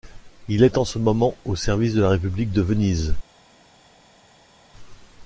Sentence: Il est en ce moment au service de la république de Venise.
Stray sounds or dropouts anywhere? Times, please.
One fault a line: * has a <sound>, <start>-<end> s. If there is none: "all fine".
all fine